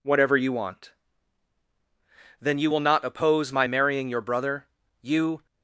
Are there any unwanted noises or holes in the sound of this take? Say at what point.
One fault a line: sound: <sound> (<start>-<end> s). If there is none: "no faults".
no faults